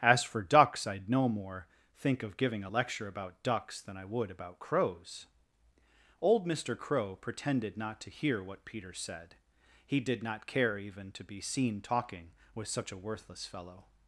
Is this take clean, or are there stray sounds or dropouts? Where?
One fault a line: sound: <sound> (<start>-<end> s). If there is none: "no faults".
no faults